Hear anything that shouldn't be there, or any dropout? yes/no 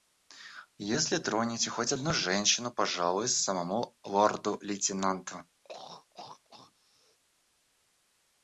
yes